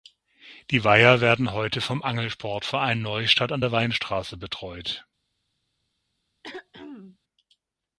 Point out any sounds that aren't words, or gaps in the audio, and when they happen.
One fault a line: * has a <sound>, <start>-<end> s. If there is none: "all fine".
* has a throat clearing, 6.4-7.2 s